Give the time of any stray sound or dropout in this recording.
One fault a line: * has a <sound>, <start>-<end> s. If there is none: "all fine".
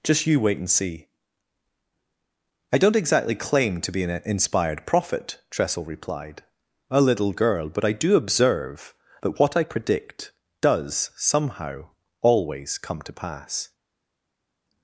all fine